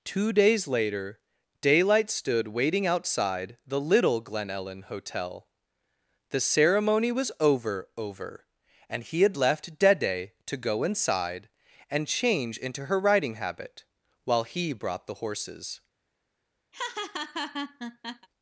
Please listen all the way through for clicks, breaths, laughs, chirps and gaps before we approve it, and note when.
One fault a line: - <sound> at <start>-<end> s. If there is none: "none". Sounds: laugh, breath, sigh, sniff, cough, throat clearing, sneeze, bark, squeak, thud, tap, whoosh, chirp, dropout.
- laugh at 16.7-18.3 s